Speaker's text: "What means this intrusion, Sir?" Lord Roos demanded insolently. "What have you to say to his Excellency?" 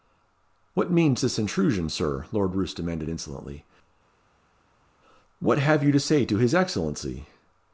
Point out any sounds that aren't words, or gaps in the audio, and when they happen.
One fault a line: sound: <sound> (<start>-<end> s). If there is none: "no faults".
no faults